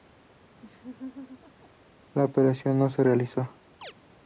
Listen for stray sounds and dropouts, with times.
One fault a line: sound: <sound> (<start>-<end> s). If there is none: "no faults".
sound: laugh (0.6-1.7 s)
sound: chirp (3.8-3.9 s)